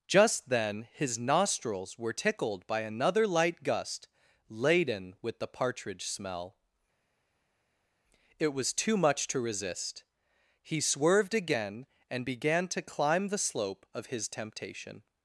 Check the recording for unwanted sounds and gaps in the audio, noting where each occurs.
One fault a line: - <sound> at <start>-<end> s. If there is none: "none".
none